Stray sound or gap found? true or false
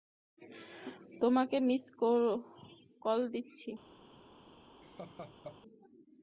true